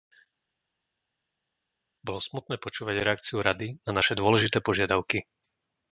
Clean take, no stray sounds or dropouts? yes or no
yes